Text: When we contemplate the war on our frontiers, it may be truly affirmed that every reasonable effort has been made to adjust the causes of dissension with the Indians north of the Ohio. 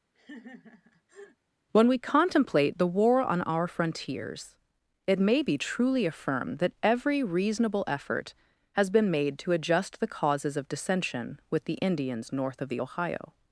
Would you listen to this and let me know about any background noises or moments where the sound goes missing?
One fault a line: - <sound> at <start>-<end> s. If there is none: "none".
- laugh at 0.1-1.4 s